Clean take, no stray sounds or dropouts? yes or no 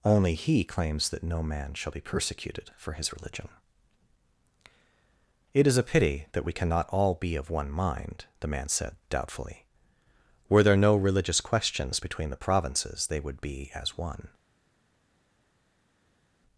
yes